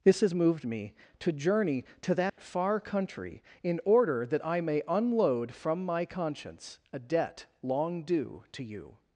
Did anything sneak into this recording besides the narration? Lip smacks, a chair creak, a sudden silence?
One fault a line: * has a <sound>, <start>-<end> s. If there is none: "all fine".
* has a dropout, 2.3-2.4 s